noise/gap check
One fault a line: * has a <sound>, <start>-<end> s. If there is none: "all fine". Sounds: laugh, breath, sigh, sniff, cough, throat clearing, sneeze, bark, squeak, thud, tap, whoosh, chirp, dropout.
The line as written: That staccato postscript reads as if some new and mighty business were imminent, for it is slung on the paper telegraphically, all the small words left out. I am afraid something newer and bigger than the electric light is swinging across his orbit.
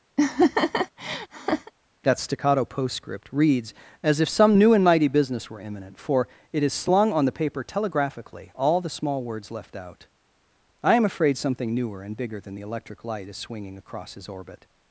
* has a laugh, 0.2-1.7 s